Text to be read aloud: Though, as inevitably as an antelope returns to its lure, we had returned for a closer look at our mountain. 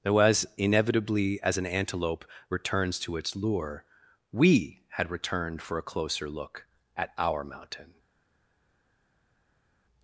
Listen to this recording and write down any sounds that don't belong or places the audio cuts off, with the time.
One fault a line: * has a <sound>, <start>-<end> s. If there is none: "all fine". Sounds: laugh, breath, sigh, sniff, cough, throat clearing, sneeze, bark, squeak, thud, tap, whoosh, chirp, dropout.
all fine